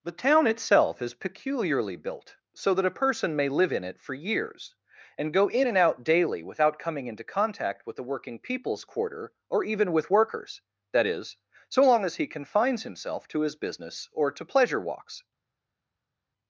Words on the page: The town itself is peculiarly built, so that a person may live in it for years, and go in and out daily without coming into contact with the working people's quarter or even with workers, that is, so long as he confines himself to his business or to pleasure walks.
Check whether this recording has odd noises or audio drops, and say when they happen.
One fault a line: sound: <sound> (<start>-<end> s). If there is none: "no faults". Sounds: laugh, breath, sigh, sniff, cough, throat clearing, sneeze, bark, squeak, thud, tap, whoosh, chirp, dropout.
no faults